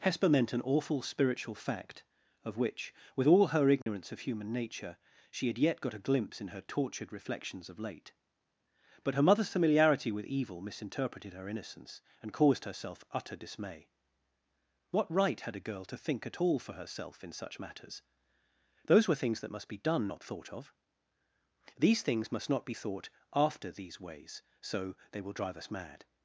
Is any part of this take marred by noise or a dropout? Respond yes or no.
yes